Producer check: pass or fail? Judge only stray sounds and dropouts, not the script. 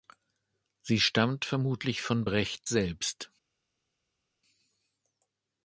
pass